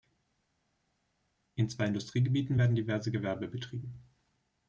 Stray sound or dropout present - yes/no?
no